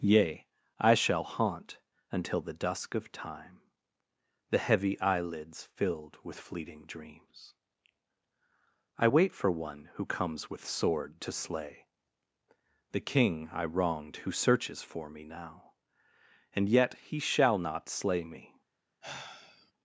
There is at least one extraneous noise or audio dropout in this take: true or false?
true